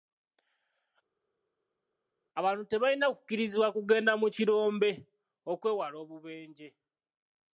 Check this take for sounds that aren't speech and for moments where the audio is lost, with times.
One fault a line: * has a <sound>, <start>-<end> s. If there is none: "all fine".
all fine